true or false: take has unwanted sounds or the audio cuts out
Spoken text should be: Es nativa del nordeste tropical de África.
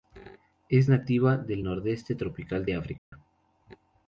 true